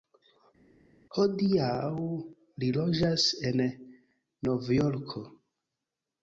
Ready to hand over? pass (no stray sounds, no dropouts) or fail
pass